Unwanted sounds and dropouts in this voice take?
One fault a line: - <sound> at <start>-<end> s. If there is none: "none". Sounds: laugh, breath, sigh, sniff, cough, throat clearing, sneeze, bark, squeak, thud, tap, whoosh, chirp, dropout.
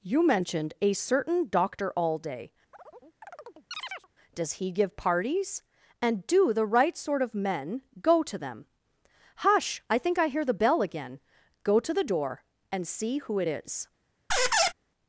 - chirp at 2.7-4.1 s
- squeak at 14.3-14.7 s